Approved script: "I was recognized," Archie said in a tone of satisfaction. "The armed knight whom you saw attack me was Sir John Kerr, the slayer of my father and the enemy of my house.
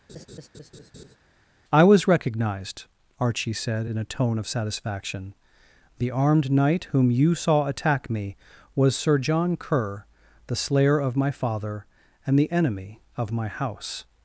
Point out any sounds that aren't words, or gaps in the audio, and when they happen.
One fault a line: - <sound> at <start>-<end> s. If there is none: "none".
- laugh at 0.1-1.2 s